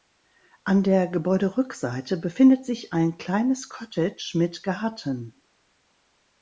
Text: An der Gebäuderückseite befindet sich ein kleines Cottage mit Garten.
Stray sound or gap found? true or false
false